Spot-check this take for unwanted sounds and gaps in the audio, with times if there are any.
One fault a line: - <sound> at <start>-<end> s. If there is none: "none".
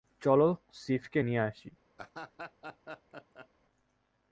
- laugh at 2.0-3.5 s